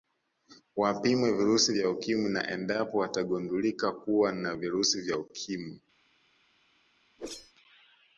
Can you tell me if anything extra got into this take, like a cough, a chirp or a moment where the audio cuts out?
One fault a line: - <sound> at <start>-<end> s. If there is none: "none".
- whoosh at 7.2-7.5 s